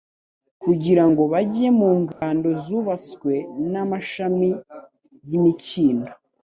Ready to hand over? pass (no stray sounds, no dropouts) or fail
fail